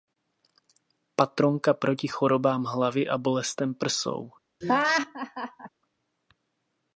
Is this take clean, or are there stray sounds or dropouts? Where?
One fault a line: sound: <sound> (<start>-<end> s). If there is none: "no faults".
sound: laugh (4.6-5.7 s)